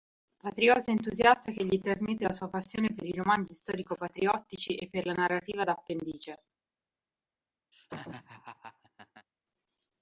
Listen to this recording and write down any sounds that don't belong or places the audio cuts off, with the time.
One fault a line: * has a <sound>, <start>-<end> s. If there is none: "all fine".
* has a laugh, 7.7-9.3 s